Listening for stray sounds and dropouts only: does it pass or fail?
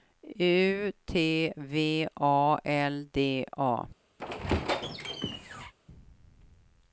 fail